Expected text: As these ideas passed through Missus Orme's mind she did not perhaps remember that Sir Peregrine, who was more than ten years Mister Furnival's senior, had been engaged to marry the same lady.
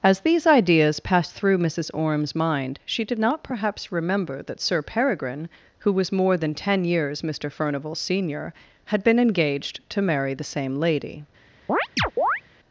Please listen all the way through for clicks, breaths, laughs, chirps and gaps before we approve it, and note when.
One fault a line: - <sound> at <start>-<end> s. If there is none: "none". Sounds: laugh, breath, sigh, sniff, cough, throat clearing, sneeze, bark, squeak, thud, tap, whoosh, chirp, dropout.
- chirp at 11.7-12.4 s